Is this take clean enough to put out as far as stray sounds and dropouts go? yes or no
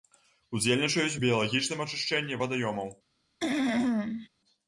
no